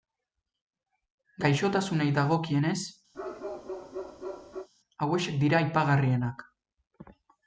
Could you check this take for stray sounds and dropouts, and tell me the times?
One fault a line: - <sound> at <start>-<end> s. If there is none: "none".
- bark at 3.1-4.7 s